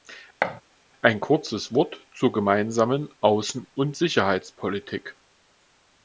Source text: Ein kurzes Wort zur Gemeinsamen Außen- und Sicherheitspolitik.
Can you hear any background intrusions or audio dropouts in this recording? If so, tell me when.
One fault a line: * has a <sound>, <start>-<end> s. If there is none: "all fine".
* has a thud, 0.4-0.6 s